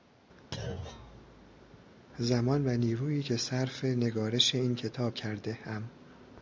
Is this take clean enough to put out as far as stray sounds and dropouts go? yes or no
no